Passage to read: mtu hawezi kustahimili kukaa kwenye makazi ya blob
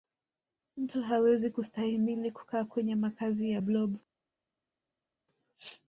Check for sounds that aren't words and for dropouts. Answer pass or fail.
pass